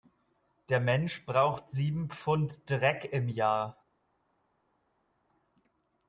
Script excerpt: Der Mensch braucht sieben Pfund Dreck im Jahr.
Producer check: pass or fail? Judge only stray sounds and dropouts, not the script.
pass